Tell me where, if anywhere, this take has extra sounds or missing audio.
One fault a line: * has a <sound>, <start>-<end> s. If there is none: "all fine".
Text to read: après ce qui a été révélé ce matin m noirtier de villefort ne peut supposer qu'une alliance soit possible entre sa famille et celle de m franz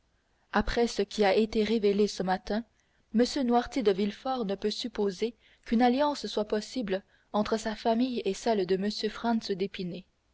all fine